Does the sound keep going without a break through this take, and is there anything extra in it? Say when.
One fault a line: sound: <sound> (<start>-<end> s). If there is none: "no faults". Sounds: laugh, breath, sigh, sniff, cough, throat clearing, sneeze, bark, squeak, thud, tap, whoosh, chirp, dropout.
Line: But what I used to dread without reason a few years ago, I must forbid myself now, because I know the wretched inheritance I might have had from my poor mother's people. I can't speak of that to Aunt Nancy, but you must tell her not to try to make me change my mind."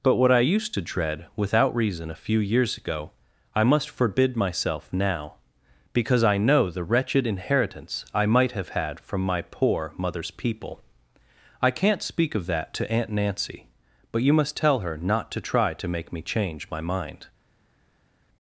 no faults